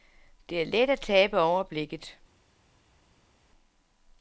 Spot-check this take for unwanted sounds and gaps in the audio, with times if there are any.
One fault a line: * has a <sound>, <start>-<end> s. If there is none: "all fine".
all fine